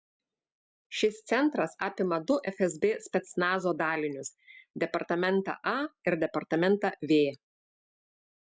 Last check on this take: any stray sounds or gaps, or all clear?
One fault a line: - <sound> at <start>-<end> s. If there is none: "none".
none